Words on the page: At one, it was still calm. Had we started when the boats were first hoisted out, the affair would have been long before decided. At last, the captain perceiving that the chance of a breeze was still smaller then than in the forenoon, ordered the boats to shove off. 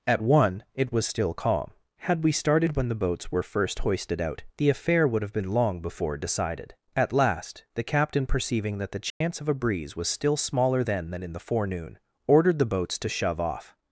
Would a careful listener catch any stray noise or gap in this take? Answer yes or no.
yes